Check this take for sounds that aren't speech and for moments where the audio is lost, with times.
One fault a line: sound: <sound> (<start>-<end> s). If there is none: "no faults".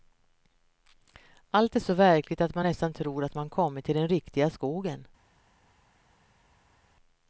no faults